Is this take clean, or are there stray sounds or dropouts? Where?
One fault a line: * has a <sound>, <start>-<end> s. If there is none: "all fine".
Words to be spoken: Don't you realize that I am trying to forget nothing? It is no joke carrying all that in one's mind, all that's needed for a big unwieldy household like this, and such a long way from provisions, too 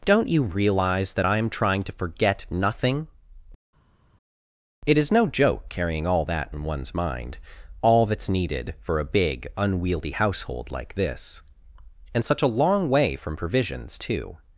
all fine